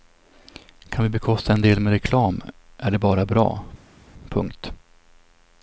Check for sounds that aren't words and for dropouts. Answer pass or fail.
pass